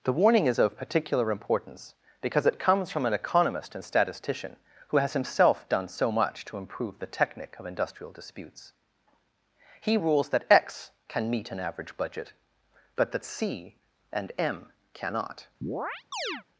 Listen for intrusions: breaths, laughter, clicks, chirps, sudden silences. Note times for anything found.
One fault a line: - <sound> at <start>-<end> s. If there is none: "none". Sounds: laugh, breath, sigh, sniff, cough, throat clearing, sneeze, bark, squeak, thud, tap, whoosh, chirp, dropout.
- chirp at 15.6-16.4 s